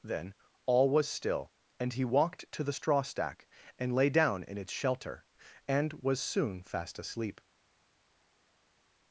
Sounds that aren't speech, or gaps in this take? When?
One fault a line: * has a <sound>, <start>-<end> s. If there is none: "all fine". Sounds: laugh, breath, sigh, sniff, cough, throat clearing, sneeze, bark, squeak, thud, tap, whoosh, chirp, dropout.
all fine